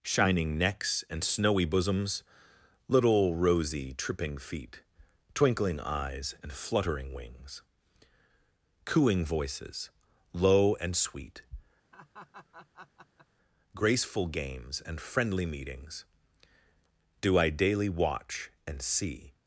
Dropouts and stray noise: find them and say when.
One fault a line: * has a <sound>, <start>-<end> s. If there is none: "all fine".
* has a laugh, 11.9-13.3 s